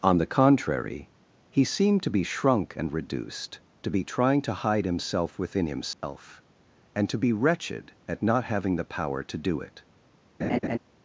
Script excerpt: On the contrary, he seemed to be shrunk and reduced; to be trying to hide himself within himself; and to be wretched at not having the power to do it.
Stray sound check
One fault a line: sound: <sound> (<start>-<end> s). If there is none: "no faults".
sound: dropout (5.9-6.0 s)
sound: laugh (10.4-10.8 s)